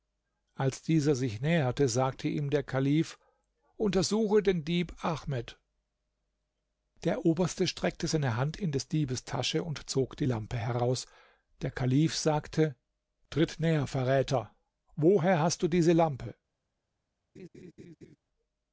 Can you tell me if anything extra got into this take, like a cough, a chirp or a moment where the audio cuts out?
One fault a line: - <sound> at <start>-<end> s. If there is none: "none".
- laugh at 17.4-18.2 s